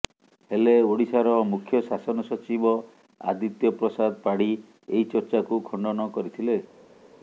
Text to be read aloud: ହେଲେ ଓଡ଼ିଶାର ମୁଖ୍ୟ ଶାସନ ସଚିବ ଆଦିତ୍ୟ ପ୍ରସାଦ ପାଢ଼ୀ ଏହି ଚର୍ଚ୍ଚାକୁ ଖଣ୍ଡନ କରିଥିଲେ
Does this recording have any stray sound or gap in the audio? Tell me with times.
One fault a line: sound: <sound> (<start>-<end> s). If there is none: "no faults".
no faults